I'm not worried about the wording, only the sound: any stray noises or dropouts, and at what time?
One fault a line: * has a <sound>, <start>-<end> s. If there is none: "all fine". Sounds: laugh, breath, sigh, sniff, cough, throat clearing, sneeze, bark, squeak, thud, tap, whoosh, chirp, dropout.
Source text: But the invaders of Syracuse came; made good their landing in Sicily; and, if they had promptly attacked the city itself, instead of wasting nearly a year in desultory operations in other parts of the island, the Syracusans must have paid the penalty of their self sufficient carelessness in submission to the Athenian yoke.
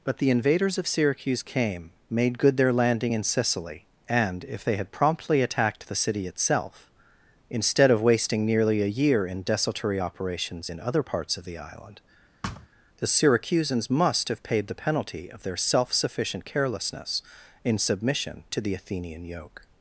* has a thud, 12.4-12.7 s